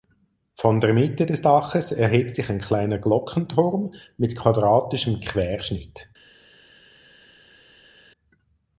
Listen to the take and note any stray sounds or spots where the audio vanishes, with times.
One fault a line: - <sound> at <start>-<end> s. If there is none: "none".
none